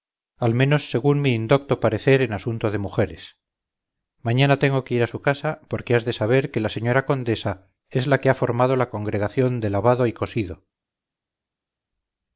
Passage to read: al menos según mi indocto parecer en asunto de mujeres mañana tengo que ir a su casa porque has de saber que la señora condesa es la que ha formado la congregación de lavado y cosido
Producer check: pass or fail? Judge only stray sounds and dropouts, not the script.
pass